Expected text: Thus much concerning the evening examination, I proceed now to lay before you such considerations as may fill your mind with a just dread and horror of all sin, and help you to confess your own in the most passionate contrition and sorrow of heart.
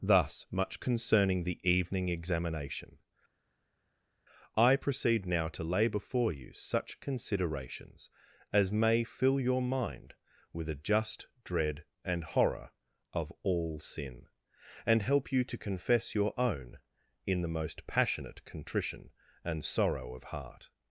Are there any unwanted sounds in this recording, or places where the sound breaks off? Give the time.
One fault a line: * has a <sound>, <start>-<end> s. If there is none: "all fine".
all fine